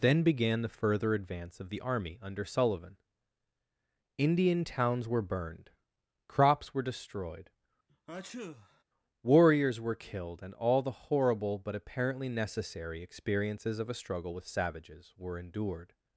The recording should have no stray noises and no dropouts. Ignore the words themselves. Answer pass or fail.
fail